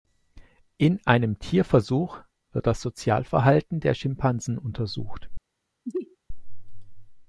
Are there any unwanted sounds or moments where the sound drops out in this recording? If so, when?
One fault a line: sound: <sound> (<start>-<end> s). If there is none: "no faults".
sound: sneeze (5.8-6.2 s)